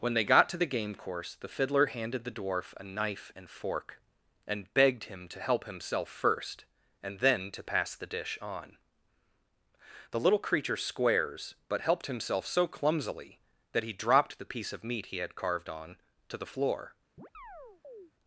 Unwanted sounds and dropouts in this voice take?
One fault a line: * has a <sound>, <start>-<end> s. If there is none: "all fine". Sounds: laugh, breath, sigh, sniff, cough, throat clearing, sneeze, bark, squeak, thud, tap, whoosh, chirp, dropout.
* has a chirp, 17.2-18.1 s